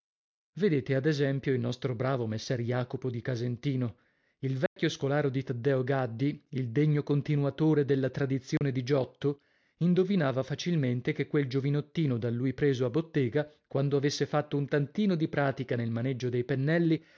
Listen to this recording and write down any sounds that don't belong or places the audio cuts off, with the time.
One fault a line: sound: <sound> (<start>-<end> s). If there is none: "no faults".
sound: dropout (4.7-4.8 s)
sound: dropout (8.6-8.6 s)